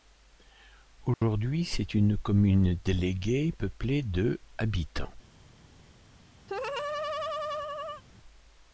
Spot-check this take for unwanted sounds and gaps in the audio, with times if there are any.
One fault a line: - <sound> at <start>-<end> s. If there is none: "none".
- dropout at 1.1-1.2 s
- laugh at 6.5-8.0 s